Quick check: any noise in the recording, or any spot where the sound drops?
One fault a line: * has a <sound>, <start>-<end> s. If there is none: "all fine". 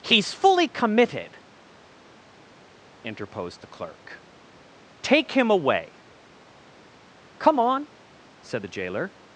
all fine